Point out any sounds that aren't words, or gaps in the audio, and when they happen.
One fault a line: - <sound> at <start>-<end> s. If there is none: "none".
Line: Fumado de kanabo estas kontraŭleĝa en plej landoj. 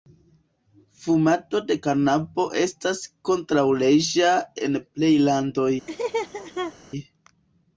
- laugh at 5.9-6.7 s